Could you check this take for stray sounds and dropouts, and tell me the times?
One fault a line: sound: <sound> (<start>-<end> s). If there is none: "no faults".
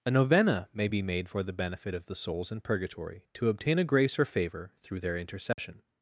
sound: dropout (5.5-5.6 s)